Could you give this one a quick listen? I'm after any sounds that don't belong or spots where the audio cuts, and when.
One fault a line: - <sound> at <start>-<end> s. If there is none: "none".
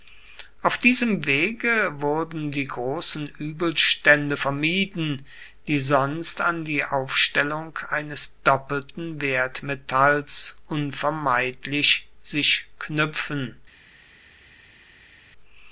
none